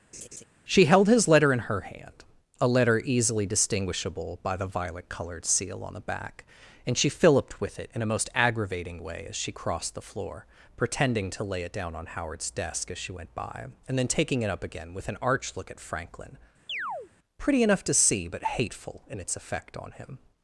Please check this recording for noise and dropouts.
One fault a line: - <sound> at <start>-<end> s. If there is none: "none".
- laugh at 0.1-0.4 s
- chirp at 16.7-17.1 s